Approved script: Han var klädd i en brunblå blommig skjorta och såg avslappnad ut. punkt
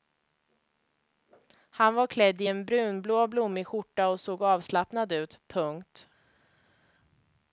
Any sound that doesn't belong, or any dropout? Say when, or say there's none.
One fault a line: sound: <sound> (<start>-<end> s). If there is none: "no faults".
no faults